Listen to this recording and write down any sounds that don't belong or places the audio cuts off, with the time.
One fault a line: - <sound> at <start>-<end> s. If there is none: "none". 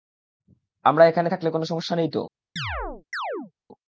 - chirp at 2.6-3.5 s